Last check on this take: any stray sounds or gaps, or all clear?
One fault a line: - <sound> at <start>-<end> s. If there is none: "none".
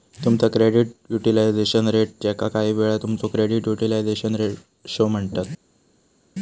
none